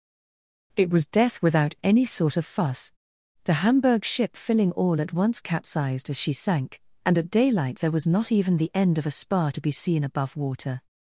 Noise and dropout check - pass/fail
pass